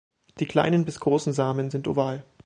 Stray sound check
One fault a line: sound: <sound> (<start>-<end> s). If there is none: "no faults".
no faults